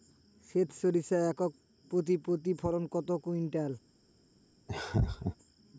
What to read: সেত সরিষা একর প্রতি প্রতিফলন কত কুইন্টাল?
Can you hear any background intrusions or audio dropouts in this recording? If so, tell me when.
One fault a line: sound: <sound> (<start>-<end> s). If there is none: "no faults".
sound: laugh (4.7-5.4 s)